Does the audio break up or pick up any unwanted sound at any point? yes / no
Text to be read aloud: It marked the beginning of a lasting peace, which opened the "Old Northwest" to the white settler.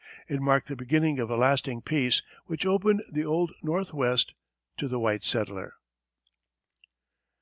no